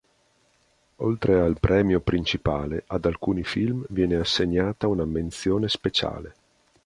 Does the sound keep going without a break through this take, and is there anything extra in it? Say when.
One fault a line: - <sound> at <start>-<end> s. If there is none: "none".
none